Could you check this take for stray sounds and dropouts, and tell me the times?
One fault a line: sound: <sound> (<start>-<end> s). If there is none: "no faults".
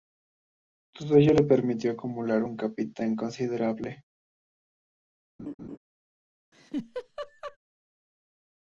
sound: laugh (5.4-5.8 s)
sound: laugh (6.5-7.6 s)